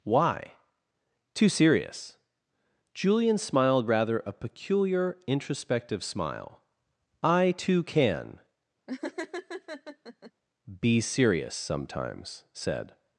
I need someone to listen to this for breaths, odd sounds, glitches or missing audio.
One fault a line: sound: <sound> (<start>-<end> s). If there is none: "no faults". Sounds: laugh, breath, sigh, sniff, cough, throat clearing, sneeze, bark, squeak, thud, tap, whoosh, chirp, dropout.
sound: laugh (8.9-10.3 s)